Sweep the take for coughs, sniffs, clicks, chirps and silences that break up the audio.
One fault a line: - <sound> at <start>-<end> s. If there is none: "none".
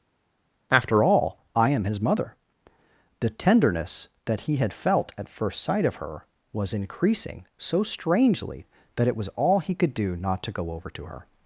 none